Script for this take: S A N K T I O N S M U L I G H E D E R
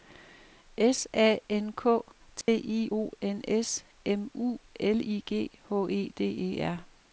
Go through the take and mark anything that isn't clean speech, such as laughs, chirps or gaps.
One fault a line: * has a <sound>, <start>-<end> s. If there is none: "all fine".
* has a dropout, 2.4-2.5 s